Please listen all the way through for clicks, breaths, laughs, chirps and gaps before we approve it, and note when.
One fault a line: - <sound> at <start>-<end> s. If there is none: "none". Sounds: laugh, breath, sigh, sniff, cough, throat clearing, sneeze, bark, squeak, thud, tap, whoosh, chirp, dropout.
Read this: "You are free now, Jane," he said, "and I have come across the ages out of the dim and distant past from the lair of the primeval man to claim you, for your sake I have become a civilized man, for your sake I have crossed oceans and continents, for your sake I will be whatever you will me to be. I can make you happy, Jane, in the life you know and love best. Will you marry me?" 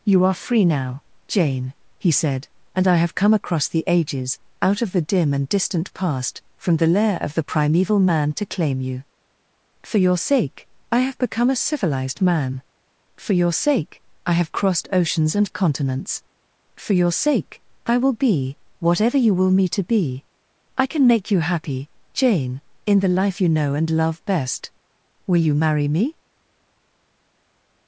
none